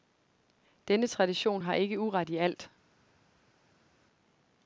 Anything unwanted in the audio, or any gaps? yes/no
no